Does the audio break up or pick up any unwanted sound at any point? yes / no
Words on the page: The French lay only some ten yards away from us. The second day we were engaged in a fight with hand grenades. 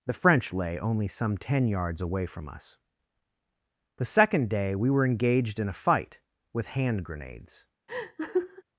yes